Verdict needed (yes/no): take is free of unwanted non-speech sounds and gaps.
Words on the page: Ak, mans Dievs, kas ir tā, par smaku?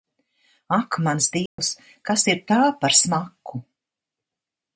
no